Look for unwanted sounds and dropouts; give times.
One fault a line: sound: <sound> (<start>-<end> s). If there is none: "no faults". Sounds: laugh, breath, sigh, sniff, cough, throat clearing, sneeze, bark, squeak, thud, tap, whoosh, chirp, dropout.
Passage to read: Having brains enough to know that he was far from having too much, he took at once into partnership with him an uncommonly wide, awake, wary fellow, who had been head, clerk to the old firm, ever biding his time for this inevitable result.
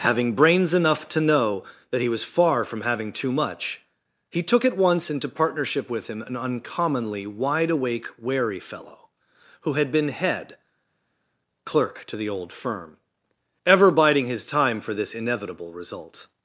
no faults